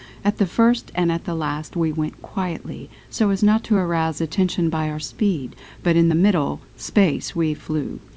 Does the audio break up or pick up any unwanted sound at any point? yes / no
no